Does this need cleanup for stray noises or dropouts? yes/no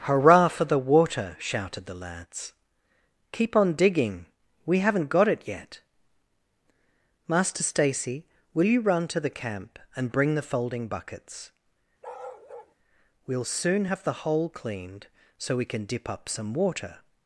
yes